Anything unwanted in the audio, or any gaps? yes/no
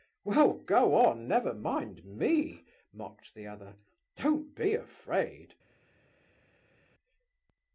no